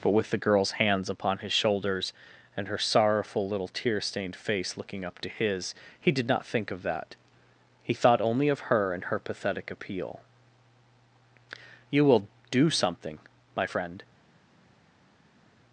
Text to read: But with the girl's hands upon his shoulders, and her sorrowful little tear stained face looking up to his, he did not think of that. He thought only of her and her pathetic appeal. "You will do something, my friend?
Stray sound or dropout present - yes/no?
no